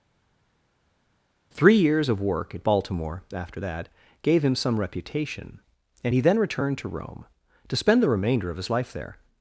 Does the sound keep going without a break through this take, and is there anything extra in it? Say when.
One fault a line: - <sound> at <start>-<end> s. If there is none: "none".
none